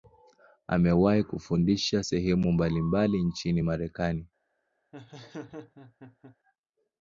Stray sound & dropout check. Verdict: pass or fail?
fail